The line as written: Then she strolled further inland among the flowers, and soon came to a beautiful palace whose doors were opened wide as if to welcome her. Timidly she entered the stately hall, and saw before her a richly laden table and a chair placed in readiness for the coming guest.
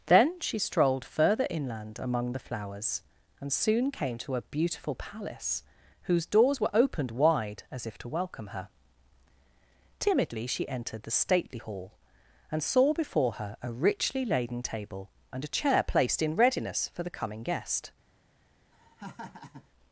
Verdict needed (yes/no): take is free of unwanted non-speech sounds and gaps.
no